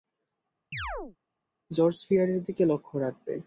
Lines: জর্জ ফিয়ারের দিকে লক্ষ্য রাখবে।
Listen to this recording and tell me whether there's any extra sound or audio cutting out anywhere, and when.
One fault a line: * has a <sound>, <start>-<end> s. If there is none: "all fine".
* has a chirp, 0.7-1.2 s